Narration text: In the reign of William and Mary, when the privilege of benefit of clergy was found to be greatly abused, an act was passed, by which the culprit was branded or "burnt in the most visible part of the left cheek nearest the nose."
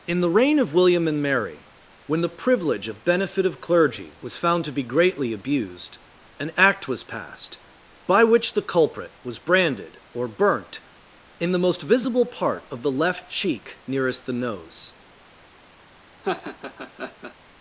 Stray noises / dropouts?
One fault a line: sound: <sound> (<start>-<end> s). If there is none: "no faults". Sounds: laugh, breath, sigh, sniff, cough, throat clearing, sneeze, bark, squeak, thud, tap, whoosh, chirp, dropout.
sound: laugh (16.2-17.3 s)